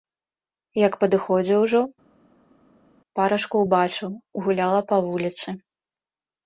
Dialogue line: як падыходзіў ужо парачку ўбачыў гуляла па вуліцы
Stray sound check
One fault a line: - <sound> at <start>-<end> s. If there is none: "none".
none